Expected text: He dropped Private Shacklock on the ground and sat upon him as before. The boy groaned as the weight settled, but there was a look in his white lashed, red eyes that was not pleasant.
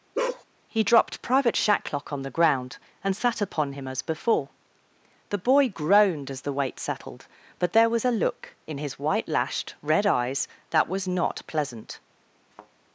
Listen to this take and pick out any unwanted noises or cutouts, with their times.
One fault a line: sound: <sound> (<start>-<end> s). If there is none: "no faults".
sound: bark (0.1-0.4 s)
sound: thud (12.5-12.7 s)